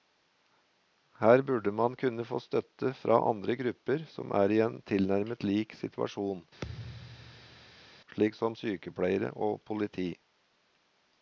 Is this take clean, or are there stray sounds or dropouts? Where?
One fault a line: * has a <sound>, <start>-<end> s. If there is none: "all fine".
* has a thud, 6.6-7.9 s